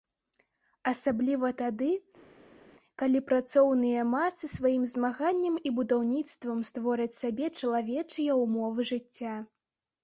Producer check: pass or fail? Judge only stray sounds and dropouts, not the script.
pass